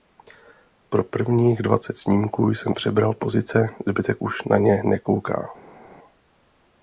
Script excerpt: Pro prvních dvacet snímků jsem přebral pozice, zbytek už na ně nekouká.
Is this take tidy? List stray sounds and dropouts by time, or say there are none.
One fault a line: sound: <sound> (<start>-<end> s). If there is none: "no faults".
no faults